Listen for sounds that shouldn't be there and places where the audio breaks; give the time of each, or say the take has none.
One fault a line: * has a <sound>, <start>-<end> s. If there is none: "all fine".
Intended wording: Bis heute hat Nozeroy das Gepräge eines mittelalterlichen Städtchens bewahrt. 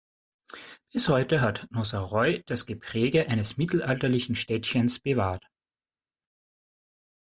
all fine